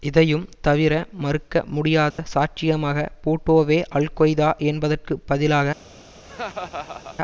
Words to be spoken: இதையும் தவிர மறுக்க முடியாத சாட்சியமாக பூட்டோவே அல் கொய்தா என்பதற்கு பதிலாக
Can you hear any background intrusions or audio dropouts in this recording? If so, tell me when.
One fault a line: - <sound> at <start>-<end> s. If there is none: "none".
- dropout at 2.1-2.2 s
- laugh at 6.2-7.2 s